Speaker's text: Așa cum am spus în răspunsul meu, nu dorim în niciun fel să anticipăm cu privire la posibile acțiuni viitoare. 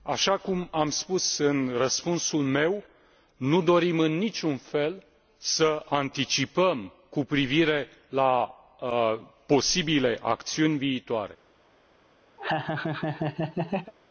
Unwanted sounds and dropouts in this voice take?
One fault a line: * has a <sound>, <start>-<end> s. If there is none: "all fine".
* has a laugh, 12.4-13.9 s